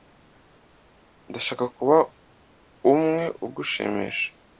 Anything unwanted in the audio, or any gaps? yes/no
no